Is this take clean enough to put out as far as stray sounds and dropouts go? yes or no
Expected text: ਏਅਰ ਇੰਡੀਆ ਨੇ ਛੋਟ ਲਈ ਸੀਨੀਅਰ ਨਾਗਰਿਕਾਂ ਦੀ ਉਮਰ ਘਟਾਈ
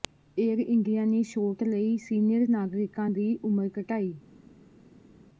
yes